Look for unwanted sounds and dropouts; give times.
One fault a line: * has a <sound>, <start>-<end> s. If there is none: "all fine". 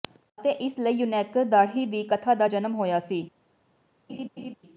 * has a laugh, 4.1-4.6 s